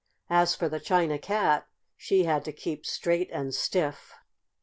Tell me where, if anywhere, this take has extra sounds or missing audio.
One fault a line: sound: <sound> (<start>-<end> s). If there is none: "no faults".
no faults